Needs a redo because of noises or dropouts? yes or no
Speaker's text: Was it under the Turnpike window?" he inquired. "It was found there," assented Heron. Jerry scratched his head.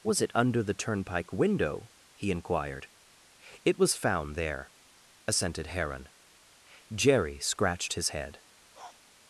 yes